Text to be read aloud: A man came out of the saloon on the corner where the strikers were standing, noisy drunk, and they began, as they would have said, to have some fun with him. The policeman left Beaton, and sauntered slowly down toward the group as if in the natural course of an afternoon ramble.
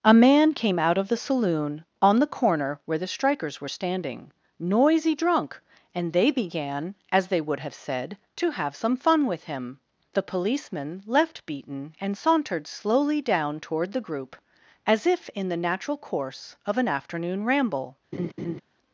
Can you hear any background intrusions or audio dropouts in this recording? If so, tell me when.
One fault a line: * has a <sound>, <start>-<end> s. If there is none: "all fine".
* has a laugh, 18.1-18.6 s